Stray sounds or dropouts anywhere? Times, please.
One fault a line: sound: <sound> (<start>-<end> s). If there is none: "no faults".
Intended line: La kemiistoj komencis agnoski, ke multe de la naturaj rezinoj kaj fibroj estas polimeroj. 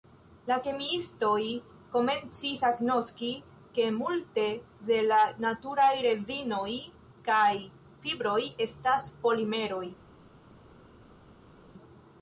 no faults